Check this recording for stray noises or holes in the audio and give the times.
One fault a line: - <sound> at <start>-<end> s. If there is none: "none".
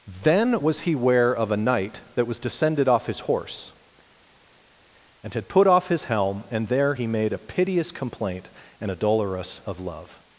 none